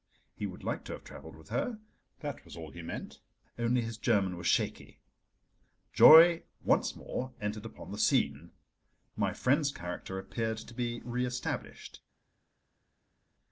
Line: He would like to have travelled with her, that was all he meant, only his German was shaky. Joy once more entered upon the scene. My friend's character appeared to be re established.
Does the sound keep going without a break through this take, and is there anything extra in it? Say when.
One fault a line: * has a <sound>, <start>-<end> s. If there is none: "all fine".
all fine